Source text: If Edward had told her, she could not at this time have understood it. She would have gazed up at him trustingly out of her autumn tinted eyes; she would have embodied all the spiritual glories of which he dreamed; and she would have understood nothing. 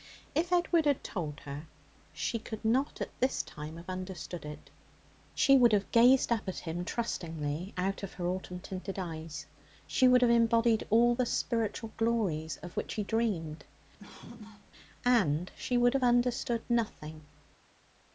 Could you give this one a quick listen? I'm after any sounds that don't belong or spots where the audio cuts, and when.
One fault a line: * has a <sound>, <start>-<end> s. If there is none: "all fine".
* has a cough, 14.0-14.7 s